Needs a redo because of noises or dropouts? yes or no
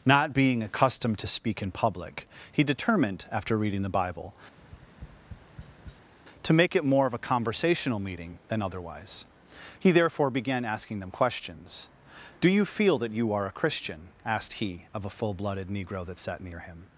yes